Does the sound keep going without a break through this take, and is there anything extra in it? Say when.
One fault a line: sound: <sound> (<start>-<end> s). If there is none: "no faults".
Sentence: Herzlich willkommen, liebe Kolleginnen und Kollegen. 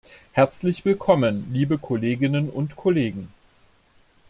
no faults